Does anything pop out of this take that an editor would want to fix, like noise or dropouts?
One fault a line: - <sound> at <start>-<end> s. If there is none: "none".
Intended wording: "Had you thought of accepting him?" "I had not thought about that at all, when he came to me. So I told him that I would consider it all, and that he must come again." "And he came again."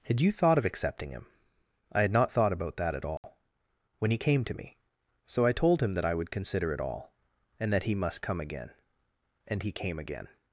- dropout at 3.2-3.2 s